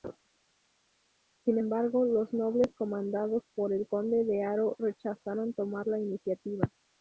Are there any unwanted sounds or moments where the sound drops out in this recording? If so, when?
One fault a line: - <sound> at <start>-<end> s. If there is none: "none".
none